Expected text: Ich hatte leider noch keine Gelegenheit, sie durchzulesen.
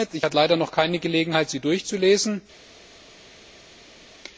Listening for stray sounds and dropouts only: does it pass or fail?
pass